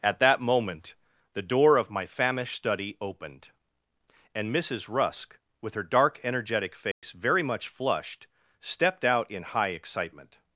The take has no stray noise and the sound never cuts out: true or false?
false